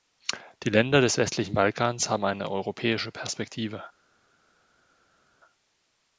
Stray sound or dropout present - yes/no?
no